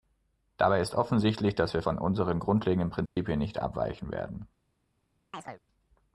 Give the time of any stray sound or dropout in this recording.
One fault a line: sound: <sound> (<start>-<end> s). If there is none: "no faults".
sound: dropout (3.1-3.2 s)
sound: chirp (5.3-5.6 s)